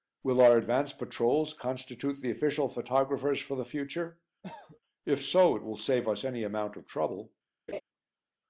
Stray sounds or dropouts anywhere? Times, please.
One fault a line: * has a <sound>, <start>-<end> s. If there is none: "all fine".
* has a cough, 4.4-4.8 s
* has a laugh, 7.7-7.8 s